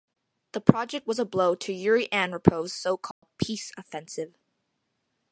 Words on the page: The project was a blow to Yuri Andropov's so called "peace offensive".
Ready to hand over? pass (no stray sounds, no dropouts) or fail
fail